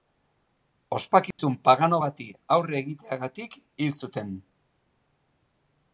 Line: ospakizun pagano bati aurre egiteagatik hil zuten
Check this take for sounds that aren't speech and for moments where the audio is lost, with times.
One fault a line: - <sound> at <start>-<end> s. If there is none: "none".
- dropout at 1.3-1.4 s